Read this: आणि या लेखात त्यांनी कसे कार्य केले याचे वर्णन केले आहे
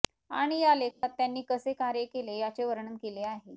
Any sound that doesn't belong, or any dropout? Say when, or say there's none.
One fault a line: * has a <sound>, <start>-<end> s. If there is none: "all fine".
* has a dropout, 0.9-1.0 s